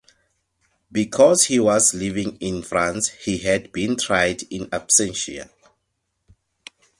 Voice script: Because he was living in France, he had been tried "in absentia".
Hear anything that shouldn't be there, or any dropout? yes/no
no